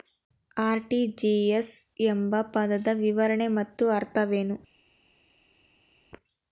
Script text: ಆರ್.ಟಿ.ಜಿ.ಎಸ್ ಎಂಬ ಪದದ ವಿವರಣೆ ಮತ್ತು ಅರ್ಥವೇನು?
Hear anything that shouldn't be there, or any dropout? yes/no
no